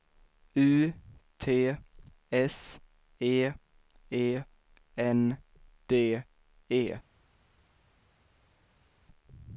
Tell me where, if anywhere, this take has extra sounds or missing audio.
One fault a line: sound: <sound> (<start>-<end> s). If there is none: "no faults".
no faults